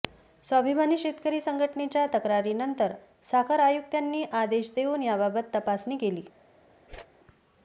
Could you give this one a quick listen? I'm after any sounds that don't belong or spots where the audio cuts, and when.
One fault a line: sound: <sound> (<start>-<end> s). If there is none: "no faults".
sound: whoosh (6.9-7.1 s)